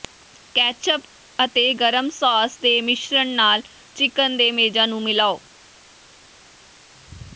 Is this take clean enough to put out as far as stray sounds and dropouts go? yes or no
yes